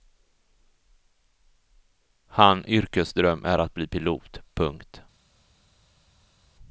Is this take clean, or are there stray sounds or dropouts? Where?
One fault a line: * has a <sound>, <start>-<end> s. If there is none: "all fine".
all fine